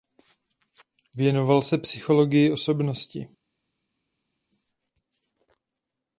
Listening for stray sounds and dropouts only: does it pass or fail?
pass